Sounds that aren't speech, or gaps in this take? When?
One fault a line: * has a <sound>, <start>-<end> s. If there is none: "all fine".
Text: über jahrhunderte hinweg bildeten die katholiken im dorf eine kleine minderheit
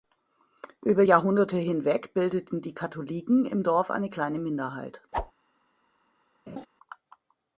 * has a whoosh, 5.1-5.3 s
* has a laugh, 6.5-6.7 s